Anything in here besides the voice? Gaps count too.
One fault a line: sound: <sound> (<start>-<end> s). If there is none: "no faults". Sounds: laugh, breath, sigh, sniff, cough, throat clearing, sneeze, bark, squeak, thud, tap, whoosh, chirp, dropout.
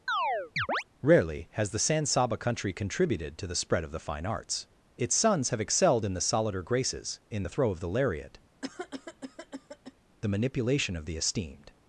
sound: chirp (0.1-0.8 s)
sound: cough (8.6-9.9 s)